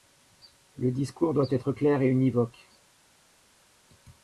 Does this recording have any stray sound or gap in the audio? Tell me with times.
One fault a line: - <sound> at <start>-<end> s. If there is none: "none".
none